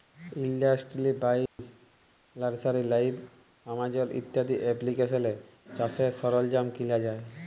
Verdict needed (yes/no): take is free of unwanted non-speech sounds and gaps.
no